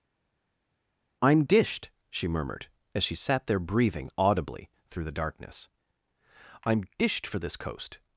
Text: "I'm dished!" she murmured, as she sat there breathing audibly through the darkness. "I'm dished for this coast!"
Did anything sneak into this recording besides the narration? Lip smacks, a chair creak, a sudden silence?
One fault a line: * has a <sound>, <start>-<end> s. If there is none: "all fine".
all fine